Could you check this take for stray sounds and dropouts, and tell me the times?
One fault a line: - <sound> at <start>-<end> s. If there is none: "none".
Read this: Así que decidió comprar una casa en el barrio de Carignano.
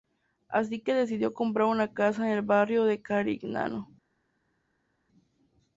none